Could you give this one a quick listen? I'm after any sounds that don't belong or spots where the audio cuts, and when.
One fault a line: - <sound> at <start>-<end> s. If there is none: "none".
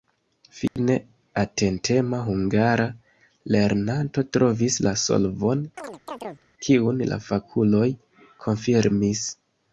- dropout at 0.7-0.8 s
- chirp at 5.8-6.5 s